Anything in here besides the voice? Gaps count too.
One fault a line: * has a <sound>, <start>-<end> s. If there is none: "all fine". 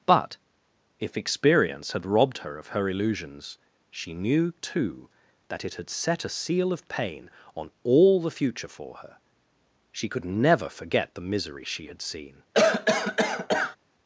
* has a cough, 12.5-13.8 s